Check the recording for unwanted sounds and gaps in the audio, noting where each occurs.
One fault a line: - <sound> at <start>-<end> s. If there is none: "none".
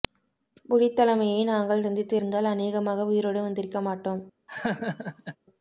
- laugh at 4.5-5.4 s